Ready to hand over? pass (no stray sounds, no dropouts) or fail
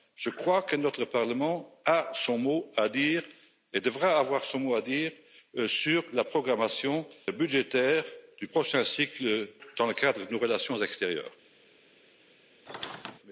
fail